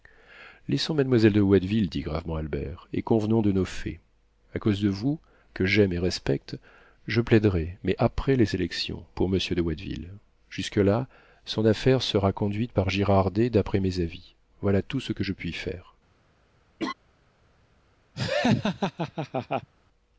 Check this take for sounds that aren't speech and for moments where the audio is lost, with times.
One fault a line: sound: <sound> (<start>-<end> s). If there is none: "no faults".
sound: laugh (16.8-16.9 s)
sound: laugh (18.1-19.7 s)